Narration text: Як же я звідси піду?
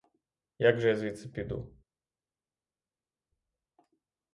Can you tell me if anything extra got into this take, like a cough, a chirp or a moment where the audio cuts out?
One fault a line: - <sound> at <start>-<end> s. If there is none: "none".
none